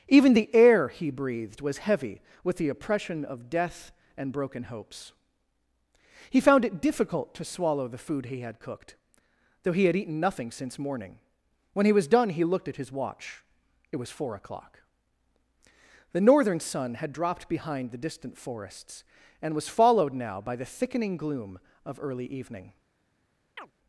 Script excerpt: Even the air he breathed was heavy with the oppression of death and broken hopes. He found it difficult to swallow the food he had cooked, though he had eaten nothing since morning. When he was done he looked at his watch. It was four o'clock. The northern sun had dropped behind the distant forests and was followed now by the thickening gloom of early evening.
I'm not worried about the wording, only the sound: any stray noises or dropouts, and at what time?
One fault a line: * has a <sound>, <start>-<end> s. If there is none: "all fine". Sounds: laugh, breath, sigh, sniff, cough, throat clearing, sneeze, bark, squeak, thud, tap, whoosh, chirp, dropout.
* has a chirp, 23.6-23.7 s